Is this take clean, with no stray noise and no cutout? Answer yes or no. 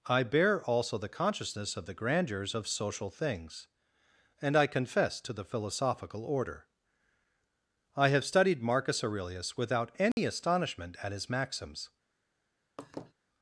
no